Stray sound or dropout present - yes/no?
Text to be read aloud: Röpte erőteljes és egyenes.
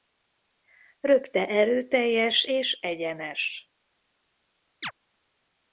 yes